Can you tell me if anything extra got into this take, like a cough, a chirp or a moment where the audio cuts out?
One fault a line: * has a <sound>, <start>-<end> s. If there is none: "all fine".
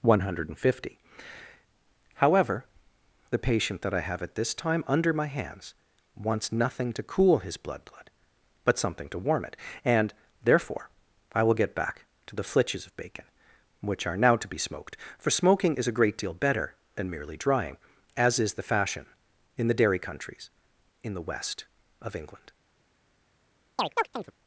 * has a chirp, 23.8-24.3 s